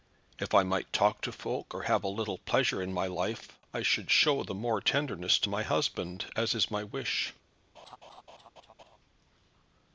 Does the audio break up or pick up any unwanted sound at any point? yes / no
yes